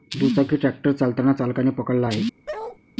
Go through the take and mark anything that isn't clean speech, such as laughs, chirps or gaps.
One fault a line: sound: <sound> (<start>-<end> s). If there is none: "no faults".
sound: bark (2.5-2.8 s)